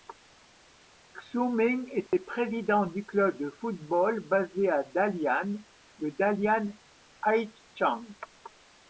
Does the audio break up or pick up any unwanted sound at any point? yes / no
yes